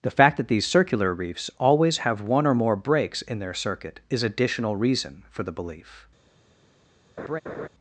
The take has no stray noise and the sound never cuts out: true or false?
false